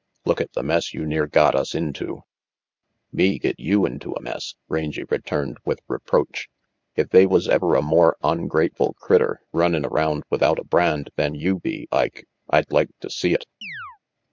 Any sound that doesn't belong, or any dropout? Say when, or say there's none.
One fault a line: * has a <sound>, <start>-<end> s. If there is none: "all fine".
* has a chirp, 13.6-14.0 s